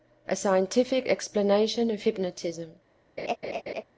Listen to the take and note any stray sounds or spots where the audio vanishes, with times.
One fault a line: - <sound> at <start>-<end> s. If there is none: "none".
- laugh at 3.2-3.8 s